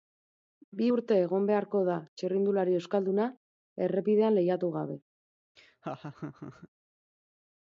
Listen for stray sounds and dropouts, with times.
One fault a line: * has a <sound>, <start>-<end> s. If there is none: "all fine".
* has a laugh, 5.6-6.7 s